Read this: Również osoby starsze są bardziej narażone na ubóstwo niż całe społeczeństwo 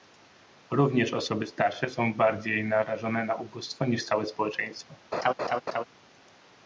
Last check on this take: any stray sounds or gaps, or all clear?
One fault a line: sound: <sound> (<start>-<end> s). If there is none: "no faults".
sound: laugh (5.1-5.8 s)